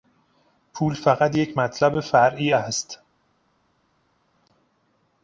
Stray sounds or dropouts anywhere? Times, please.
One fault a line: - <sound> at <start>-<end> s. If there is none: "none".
none